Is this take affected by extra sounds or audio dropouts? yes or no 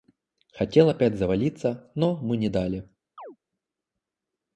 yes